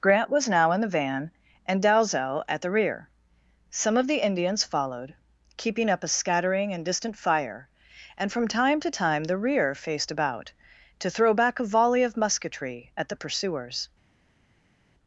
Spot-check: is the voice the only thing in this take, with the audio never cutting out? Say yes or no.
yes